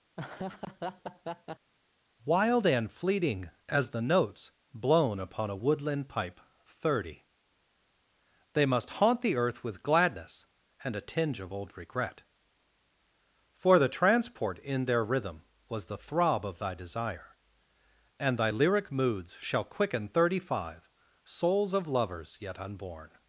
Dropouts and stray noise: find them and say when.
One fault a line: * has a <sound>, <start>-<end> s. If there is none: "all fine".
* has a laugh, 0.2-1.7 s